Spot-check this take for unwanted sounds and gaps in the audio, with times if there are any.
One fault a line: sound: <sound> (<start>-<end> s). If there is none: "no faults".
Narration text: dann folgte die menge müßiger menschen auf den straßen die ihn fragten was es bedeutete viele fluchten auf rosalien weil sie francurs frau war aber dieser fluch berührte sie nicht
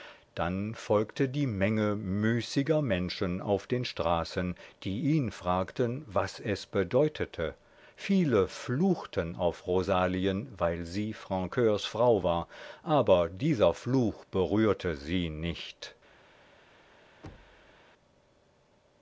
sound: thud (17.2-17.8 s)